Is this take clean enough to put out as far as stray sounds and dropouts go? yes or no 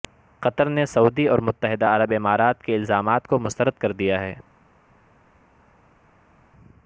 yes